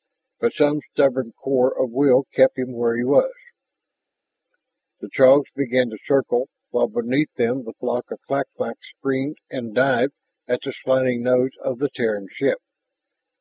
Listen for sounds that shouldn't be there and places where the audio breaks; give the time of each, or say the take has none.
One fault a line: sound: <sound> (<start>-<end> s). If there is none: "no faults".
no faults